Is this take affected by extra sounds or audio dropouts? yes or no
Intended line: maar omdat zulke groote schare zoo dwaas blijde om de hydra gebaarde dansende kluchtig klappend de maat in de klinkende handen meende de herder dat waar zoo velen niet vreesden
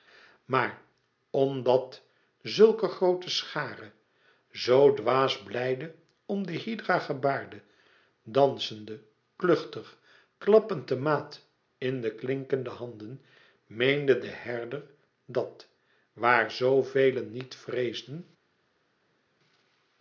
no